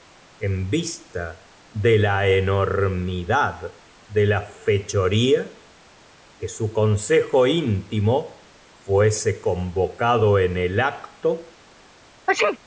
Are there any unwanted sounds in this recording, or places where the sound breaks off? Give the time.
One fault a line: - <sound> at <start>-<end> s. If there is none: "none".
- sneeze at 12.3-12.6 s